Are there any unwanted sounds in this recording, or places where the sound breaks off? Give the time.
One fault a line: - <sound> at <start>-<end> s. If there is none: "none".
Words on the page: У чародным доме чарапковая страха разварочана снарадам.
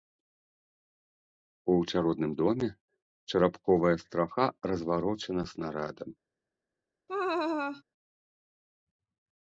- laugh at 7.1-7.8 s